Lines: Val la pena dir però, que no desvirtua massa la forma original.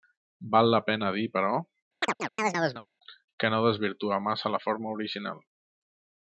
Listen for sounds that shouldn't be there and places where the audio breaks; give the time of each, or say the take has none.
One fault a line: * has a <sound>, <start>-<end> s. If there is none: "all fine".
* has a chirp, 2.0-2.9 s